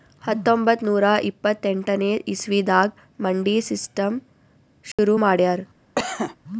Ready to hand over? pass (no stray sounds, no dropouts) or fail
fail